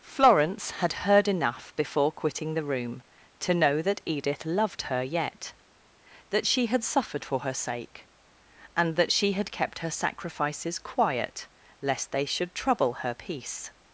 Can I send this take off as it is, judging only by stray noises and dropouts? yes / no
yes